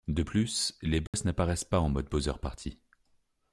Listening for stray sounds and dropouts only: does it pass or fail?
fail